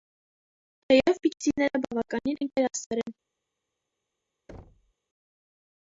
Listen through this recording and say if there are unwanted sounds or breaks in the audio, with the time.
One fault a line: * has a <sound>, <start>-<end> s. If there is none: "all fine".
* has a thud, 4.5-4.9 s